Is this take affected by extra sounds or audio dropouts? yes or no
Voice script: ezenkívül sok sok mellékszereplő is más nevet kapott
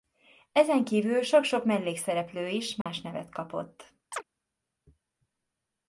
yes